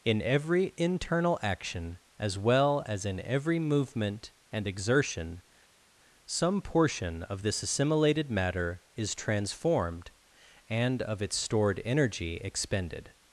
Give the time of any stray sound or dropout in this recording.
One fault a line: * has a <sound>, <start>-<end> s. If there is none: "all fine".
all fine